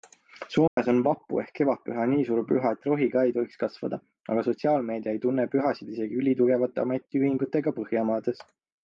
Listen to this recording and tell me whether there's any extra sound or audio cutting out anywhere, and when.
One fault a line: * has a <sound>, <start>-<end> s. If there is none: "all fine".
* has a dropout, 0.7-0.8 s